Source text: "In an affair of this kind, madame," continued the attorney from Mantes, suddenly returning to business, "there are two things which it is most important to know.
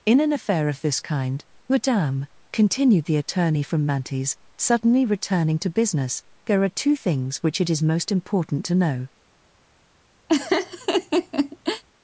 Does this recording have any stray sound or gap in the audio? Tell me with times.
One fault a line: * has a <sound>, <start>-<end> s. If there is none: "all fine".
* has a laugh, 10.3-11.8 s